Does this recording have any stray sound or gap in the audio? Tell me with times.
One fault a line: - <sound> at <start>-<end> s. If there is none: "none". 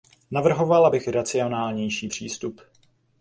none